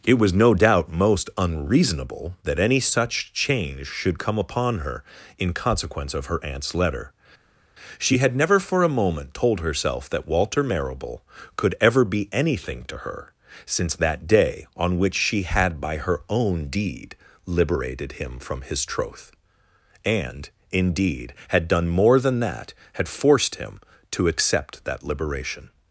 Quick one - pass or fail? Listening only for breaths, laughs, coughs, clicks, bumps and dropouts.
pass